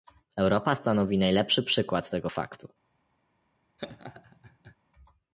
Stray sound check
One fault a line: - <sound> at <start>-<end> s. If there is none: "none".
- laugh at 3.8-4.8 s